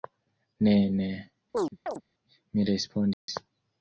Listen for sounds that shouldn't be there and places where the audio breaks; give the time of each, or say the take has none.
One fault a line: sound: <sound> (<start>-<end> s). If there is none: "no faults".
sound: chirp (1.5-2.0 s)
sound: dropout (3.1-3.3 s)